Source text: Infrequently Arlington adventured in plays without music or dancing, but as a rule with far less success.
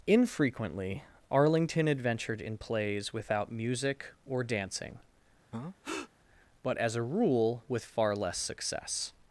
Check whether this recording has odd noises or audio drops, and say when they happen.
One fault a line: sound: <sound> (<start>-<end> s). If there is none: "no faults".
sound: breath (5.5-6.1 s)